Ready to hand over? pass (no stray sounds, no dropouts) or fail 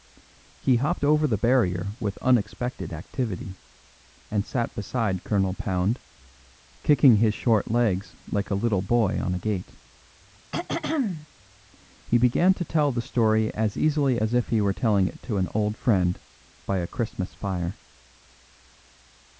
fail